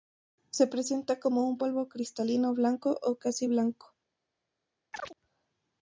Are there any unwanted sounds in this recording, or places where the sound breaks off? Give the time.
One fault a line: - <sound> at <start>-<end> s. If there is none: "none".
- chirp at 4.9-5.2 s